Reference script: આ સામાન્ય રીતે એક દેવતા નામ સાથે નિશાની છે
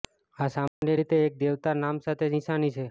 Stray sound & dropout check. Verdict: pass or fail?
fail